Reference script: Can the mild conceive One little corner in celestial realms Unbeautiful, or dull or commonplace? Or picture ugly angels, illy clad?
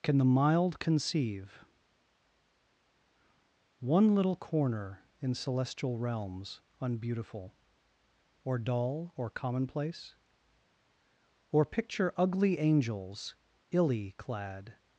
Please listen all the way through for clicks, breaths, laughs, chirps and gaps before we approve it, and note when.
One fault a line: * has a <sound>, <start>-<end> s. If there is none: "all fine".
all fine